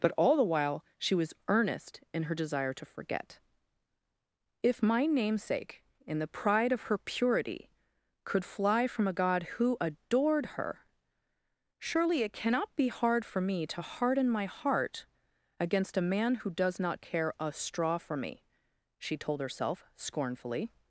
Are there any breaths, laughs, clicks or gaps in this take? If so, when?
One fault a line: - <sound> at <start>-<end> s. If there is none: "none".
none